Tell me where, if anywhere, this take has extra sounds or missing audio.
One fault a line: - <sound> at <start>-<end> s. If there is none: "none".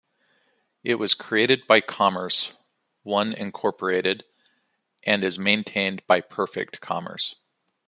none